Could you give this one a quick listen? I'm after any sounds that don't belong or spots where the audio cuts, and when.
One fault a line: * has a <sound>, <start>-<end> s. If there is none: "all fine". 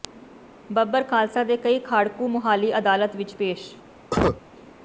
* has a cough, 4.1-4.4 s